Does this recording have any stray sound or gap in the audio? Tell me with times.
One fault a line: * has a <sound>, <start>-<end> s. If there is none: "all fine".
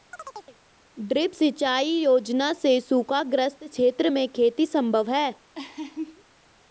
* has a chirp, 0.1-0.6 s
* has a laugh, 5.5-6.2 s